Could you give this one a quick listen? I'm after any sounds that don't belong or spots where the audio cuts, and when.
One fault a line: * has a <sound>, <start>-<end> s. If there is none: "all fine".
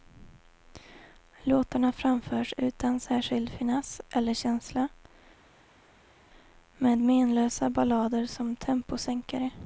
all fine